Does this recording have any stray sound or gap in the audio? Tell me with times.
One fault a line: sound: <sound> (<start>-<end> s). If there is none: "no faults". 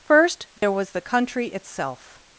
sound: dropout (0.6-0.6 s)